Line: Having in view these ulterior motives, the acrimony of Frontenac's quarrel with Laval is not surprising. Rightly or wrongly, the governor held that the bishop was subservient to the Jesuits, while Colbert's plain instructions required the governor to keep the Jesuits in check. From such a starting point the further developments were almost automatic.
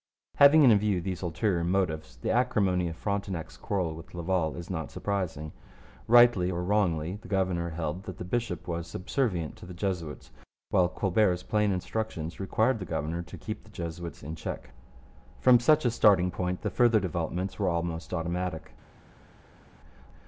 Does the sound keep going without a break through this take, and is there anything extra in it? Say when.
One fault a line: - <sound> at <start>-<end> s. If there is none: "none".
none